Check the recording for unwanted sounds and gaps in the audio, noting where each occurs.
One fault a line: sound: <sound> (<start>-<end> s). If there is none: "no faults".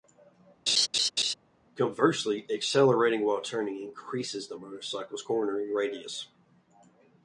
sound: laugh (0.7-1.3 s)